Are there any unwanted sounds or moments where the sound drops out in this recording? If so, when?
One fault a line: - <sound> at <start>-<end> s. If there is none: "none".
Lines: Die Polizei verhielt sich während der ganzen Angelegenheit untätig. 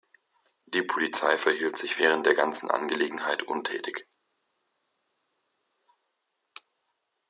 none